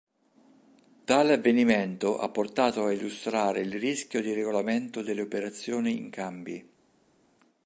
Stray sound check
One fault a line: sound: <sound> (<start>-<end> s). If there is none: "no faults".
no faults